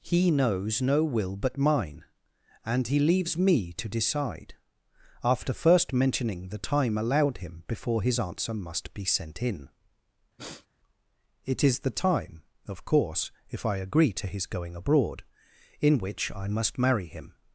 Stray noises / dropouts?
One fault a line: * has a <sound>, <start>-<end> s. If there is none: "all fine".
* has a sniff, 10.4-10.7 s